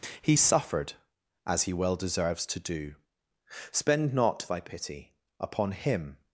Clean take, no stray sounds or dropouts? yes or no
yes